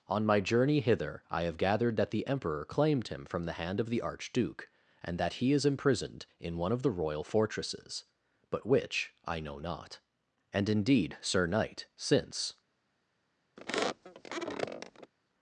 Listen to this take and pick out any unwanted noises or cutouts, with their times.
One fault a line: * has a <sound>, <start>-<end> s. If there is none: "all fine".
* has a squeak, 13.6-15.1 s